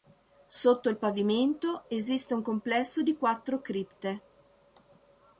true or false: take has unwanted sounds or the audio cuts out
false